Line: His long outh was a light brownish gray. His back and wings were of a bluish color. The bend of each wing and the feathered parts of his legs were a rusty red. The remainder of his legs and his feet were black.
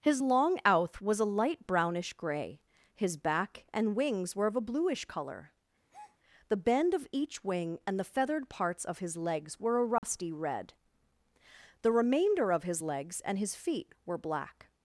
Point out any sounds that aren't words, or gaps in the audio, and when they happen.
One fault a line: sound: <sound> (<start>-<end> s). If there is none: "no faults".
sound: breath (5.9-6.2 s)
sound: dropout (10.0-10.0 s)